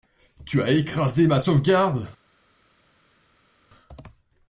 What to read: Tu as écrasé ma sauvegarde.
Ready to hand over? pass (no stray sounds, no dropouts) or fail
pass